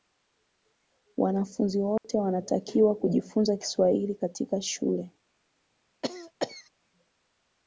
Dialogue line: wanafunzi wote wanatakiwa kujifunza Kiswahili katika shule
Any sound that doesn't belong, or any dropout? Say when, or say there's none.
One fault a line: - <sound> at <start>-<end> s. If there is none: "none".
- dropout at 2.0-2.0 s
- cough at 6.0-6.7 s